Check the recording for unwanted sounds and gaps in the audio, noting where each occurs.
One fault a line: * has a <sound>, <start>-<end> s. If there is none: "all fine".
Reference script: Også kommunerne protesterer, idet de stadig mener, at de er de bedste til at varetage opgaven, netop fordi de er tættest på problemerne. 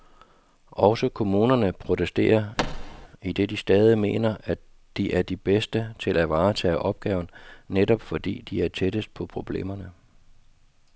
* has a thud, 2.6-3.1 s